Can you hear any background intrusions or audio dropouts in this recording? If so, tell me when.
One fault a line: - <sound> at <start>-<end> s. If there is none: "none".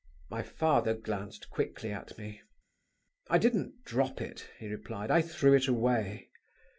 none